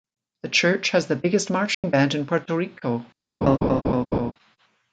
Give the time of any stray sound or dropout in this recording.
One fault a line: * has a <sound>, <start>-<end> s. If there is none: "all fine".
* has a dropout, 1.7-1.8 s
* has a laugh, 3.4-4.3 s